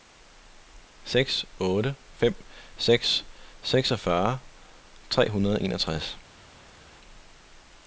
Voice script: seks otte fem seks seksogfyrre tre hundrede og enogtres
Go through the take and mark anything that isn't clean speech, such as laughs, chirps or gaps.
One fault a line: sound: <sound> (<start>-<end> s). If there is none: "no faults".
no faults